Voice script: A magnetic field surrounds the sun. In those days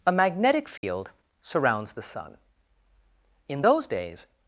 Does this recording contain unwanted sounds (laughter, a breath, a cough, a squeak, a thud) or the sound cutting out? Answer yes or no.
yes